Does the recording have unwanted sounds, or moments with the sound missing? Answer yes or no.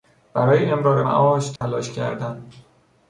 yes